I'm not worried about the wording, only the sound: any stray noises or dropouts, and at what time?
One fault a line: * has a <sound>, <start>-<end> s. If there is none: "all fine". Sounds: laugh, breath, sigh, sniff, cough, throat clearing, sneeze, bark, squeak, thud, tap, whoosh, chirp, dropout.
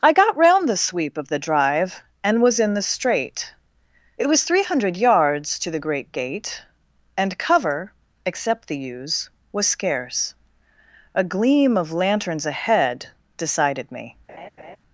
* has a laugh, 14.3-14.8 s